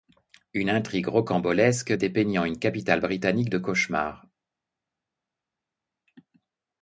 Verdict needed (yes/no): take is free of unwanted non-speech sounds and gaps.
yes